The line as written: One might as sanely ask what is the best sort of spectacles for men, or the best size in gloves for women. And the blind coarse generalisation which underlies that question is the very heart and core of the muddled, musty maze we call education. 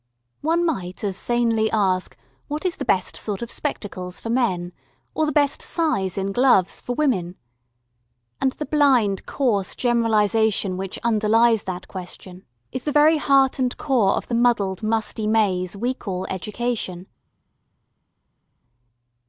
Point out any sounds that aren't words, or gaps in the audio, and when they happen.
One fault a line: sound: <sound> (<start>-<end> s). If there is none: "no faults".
no faults